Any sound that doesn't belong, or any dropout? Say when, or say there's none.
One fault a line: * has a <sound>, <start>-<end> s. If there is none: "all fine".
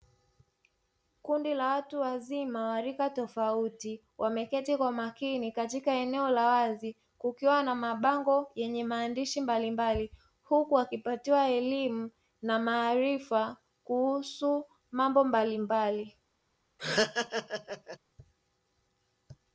* has a laugh, 16.8-18.0 s